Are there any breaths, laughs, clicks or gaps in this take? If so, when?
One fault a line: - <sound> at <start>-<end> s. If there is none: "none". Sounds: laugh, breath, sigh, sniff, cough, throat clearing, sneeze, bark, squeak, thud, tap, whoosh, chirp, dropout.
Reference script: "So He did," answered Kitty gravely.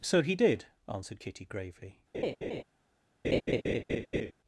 - laugh at 2.1-2.6 s
- laugh at 3.2-4.3 s